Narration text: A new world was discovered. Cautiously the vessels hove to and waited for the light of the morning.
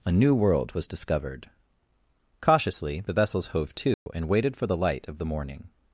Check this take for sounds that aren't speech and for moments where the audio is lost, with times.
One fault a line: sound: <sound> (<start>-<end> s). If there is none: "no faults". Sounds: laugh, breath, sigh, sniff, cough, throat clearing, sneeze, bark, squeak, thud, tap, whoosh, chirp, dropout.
sound: dropout (3.9-4.1 s)